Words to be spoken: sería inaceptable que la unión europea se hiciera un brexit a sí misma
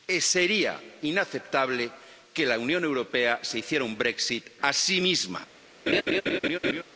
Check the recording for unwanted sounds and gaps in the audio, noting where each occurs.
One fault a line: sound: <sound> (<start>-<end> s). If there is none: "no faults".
sound: laugh (5.9-6.8 s)